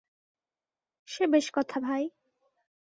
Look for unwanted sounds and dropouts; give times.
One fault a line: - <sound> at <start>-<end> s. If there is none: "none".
none